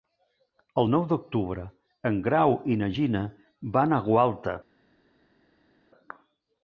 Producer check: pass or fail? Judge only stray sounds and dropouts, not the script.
pass